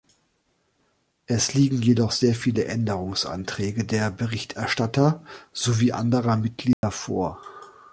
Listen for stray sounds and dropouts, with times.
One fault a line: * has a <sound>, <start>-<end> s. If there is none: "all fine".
* has a dropout, 6.7-6.8 s